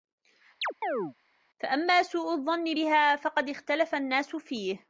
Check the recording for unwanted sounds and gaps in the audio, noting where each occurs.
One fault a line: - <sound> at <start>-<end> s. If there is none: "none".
- chirp at 0.6-1.1 s